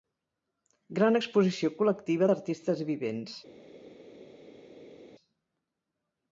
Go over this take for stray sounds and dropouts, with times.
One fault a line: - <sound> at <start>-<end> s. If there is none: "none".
none